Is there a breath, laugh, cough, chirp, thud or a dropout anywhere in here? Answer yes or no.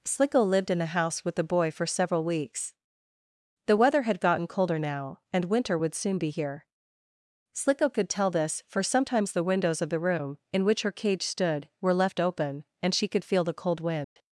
yes